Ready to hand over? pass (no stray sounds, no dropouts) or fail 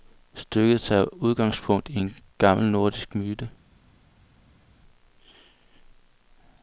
pass